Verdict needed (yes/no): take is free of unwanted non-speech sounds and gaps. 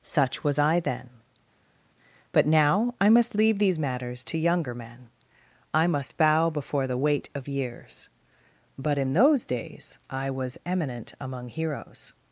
yes